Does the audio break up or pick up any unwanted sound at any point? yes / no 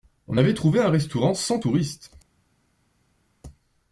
no